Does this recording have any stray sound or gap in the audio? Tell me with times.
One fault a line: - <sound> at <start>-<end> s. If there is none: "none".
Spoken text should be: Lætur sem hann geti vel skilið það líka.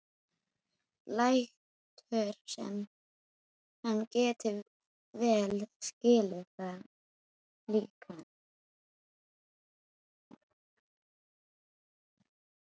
none